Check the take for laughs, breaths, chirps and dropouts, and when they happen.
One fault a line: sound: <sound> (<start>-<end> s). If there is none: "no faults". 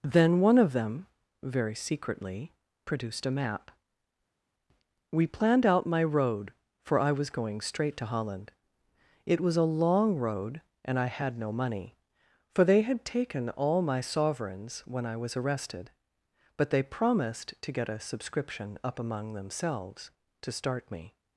no faults